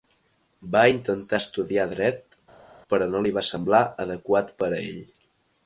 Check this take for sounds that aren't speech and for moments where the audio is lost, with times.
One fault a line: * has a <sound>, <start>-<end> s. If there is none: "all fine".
all fine